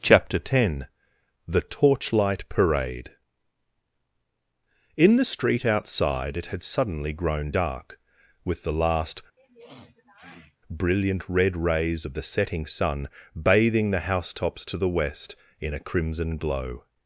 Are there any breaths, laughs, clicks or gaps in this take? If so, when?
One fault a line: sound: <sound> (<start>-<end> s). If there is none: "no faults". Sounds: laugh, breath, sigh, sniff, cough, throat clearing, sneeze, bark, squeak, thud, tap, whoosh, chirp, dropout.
sound: sniff (9.4-10.6 s)